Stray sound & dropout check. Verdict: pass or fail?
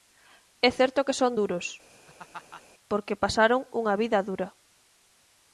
fail